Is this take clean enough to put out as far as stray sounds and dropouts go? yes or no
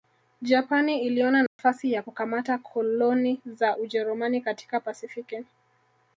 no